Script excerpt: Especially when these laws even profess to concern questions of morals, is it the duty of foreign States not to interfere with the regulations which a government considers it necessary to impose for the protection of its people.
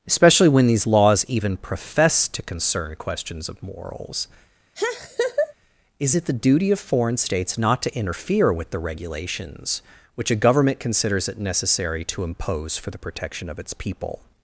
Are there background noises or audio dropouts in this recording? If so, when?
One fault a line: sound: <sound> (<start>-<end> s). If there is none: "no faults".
sound: laugh (4.7-5.5 s)